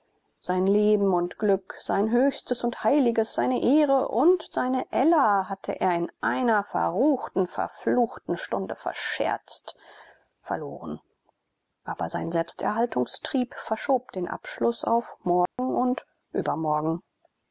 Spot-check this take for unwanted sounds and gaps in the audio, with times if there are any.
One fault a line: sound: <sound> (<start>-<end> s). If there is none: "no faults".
sound: dropout (15.5-15.6 s)